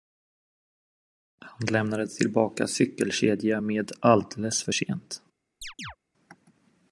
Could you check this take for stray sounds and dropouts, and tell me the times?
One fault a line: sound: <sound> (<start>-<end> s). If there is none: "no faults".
sound: chirp (5.6-6.0 s)